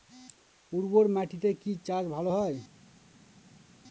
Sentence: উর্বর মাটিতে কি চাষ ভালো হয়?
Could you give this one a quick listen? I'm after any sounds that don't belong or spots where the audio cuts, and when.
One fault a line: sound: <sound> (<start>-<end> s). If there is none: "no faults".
no faults